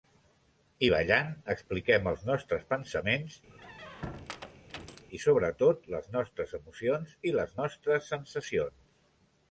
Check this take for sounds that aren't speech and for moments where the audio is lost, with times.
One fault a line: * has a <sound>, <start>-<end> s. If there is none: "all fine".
* has a squeak, 3.5-5.1 s